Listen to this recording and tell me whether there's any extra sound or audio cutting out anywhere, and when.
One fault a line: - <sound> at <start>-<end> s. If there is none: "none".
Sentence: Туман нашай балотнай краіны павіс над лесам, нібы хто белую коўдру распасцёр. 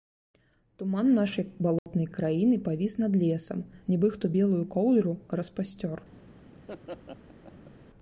- dropout at 1.8-1.9 s
- laugh at 6.7-7.7 s